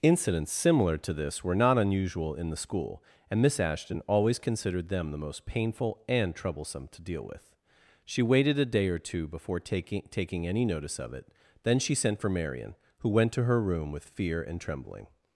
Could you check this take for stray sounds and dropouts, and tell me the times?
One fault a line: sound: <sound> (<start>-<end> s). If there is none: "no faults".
no faults